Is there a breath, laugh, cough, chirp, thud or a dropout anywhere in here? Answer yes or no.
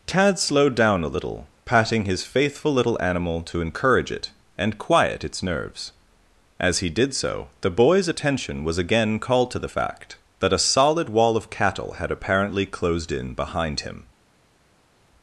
no